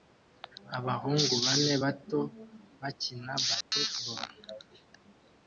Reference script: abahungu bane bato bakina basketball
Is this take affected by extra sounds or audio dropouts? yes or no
yes